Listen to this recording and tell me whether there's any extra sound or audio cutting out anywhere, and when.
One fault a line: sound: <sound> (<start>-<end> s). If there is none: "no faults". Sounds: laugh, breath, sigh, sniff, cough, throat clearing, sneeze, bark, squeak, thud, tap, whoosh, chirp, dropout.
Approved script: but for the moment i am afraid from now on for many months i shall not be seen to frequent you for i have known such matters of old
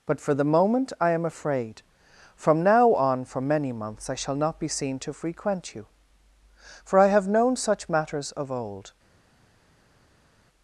no faults